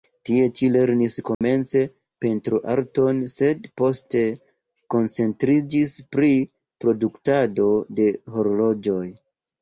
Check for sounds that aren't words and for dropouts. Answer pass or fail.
fail